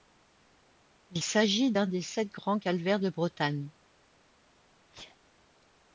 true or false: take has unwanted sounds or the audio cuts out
true